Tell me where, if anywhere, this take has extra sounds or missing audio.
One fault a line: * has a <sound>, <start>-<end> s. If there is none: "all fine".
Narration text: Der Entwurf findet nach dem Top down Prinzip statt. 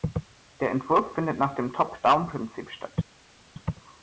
all fine